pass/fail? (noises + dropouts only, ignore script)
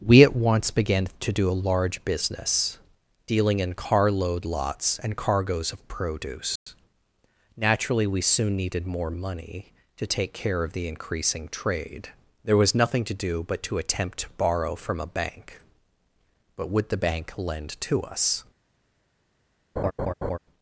fail